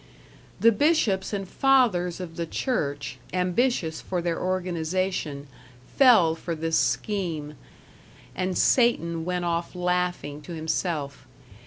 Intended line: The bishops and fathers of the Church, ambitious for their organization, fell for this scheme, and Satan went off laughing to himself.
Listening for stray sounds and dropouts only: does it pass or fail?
pass